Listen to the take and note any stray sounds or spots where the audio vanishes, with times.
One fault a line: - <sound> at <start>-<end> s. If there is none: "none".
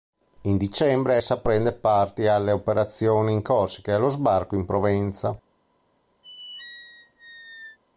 - squeak at 6.2-7.8 s